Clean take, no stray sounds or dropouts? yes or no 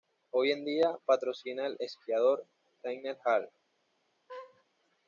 no